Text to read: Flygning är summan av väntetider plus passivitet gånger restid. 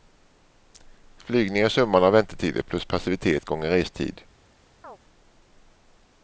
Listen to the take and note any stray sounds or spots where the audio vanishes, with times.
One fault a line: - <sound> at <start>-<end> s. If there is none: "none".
- chirp at 4.8-5.0 s